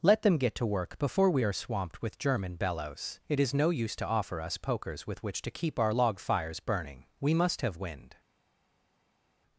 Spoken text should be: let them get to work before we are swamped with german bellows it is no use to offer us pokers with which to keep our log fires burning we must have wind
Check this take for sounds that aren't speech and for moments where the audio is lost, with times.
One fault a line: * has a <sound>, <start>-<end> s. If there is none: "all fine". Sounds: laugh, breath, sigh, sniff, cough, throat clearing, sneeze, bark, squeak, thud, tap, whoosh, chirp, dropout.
all fine